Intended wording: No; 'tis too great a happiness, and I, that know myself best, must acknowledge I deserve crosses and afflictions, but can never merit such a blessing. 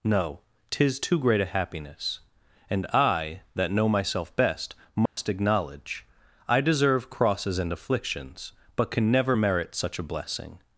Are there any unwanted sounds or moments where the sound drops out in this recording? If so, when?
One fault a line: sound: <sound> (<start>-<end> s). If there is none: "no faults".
sound: dropout (5.1-5.2 s)